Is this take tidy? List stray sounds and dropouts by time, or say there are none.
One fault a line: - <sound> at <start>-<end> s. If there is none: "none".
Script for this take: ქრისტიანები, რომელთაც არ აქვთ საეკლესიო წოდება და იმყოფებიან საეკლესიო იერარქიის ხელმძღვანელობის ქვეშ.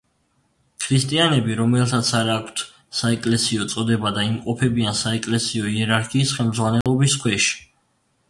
- dropout at 6.8-6.9 s